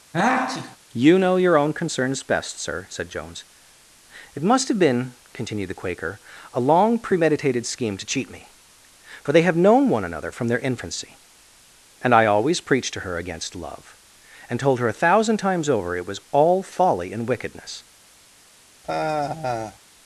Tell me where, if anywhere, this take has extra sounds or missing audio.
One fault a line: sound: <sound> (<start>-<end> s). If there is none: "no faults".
sound: sneeze (0.1-0.8 s)
sound: sigh (18.8-19.8 s)